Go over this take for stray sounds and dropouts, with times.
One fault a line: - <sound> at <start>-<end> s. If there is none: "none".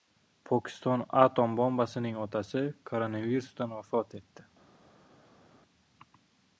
none